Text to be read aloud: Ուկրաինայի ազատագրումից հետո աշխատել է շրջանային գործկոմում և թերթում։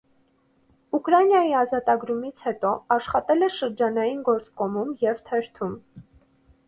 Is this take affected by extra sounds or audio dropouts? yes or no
no